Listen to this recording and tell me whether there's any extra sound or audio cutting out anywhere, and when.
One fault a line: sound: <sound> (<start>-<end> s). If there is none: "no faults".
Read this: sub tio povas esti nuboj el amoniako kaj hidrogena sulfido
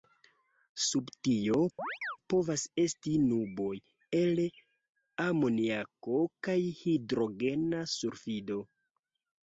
sound: chirp (1.8-2.2 s)